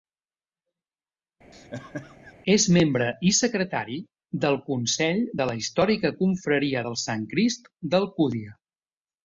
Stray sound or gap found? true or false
true